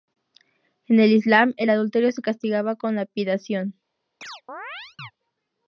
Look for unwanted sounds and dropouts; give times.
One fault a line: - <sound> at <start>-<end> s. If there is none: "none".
- chirp at 4.2-5.1 s